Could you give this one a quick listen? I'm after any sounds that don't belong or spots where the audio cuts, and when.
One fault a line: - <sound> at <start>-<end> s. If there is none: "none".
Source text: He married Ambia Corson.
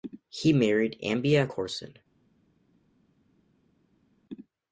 none